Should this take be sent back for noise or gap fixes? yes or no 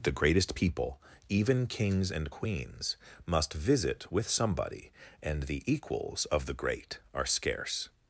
no